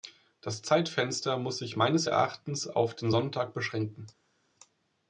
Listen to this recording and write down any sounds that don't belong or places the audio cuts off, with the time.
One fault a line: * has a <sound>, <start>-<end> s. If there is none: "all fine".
all fine